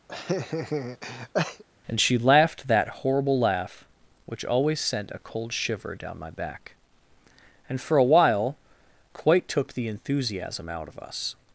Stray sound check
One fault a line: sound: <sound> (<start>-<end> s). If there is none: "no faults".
sound: laugh (0.1-1.6 s)